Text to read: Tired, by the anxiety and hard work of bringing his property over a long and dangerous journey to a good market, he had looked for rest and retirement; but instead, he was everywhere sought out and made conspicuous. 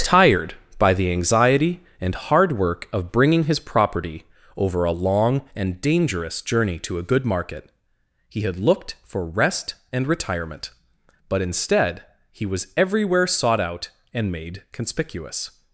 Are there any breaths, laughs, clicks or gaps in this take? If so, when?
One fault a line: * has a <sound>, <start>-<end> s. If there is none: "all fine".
all fine